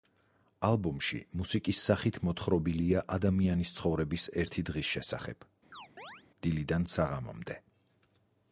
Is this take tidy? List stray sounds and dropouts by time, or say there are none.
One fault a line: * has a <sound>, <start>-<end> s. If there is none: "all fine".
* has a chirp, 5.7-6.2 s